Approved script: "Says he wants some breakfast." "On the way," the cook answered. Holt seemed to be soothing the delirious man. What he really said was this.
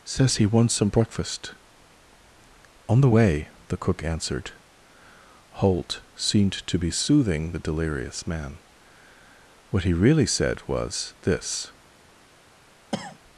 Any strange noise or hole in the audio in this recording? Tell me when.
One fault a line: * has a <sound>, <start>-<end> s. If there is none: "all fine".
* has a cough, 12.9-13.2 s